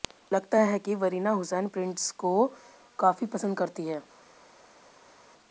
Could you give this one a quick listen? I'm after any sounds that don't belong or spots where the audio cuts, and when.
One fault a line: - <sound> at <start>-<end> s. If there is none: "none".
none